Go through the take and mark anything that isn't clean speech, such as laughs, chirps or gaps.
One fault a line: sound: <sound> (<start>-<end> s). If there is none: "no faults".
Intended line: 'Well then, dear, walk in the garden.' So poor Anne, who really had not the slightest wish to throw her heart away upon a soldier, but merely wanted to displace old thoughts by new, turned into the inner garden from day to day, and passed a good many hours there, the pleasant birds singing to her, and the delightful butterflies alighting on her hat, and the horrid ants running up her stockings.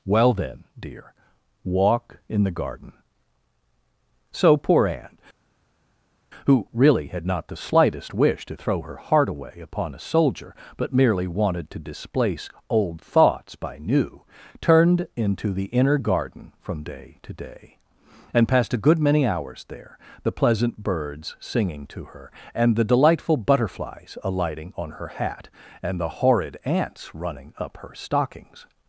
no faults